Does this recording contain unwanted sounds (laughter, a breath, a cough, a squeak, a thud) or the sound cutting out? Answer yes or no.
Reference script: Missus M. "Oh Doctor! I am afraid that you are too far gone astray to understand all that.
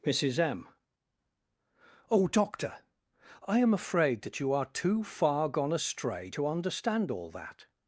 no